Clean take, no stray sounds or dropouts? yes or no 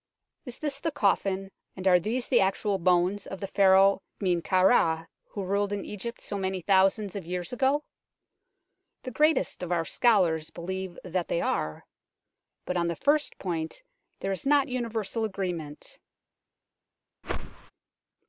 no